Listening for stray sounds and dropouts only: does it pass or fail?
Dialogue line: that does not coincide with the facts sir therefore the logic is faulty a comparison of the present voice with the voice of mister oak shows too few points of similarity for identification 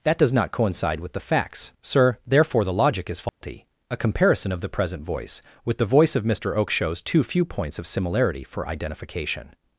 fail